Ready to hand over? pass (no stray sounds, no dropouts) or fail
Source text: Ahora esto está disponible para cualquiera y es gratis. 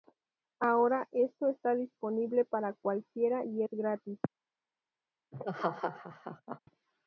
fail